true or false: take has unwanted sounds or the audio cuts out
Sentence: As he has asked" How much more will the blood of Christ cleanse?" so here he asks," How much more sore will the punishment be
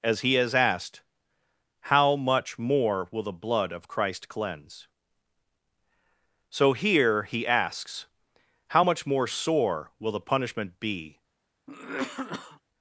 true